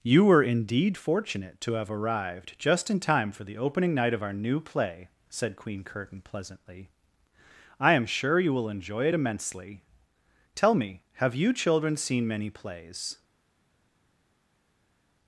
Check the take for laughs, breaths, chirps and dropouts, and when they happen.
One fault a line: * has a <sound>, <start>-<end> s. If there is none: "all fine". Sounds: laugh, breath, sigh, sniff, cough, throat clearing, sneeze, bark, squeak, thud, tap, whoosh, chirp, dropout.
all fine